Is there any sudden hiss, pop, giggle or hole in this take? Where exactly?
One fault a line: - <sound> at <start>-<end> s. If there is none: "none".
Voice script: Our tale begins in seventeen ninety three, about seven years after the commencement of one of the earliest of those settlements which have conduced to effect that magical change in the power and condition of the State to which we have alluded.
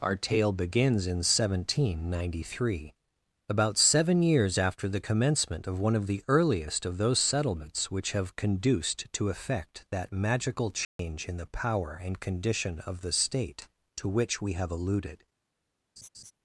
- dropout at 10.8-11.0 s
- laugh at 16.0-16.3 s